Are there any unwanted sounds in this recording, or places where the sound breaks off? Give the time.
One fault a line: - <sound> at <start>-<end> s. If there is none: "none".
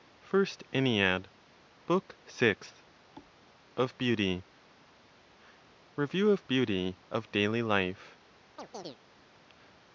- thud at 3.2-3.4 s
- chirp at 8.6-9.0 s